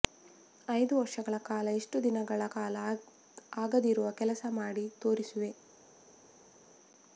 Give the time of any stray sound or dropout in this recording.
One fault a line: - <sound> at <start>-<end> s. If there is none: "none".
none